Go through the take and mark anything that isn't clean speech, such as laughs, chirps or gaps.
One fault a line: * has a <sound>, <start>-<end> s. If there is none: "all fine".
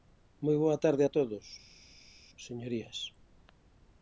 all fine